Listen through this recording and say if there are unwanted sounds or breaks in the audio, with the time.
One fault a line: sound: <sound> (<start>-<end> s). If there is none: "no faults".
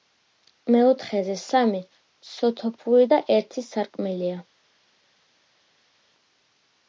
no faults